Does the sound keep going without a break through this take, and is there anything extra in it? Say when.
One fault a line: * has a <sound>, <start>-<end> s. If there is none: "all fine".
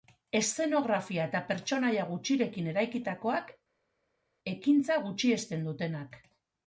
all fine